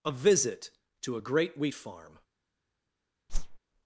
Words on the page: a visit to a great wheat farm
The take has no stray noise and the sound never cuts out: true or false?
false